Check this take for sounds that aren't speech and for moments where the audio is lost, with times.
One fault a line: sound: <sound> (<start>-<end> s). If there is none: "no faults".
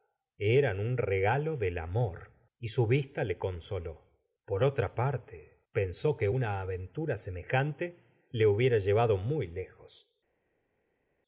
no faults